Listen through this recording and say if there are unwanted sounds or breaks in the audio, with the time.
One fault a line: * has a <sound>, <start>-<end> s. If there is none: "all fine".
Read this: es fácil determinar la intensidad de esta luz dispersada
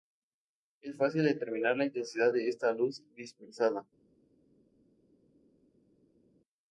all fine